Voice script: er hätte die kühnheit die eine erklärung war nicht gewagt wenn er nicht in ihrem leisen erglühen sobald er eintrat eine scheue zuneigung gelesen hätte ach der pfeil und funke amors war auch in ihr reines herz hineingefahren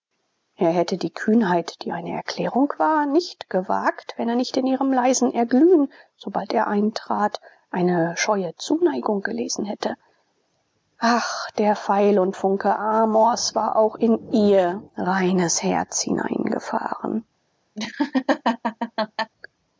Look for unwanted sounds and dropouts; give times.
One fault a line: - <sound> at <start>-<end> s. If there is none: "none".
- laugh at 17.8-19.3 s